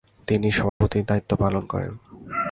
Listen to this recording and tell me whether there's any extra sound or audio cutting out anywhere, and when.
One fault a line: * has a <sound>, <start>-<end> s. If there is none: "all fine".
* has a dropout, 0.7-0.8 s